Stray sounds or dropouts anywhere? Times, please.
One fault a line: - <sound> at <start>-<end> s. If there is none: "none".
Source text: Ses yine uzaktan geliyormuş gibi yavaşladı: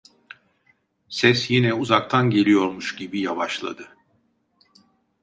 none